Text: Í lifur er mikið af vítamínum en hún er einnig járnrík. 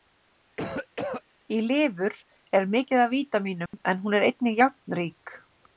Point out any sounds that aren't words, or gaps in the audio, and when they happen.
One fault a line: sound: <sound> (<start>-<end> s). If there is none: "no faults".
sound: cough (0.6-1.2 s)
sound: dropout (3.7-3.7 s)